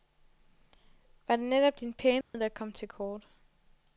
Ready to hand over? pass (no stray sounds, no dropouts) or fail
fail